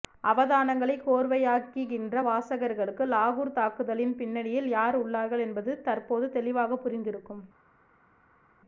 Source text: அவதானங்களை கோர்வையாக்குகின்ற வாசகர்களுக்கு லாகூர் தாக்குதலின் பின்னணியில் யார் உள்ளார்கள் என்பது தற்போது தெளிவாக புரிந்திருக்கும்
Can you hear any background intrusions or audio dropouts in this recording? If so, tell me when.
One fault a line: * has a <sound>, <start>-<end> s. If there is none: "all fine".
all fine